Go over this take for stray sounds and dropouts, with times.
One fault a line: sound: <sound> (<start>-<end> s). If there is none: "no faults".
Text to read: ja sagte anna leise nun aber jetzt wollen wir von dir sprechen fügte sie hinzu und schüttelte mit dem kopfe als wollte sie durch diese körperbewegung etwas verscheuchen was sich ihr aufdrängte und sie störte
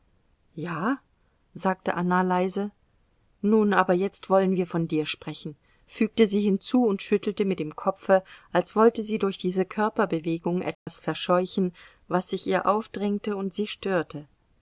sound: dropout (10.7-10.9 s)